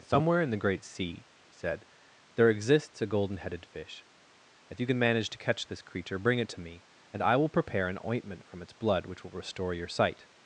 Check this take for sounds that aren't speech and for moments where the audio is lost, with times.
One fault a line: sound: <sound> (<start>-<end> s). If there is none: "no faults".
no faults